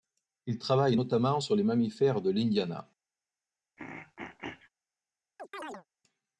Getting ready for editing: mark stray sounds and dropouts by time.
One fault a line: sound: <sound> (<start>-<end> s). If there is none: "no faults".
sound: throat clearing (3.8-4.7 s)
sound: chirp (5.4-5.9 s)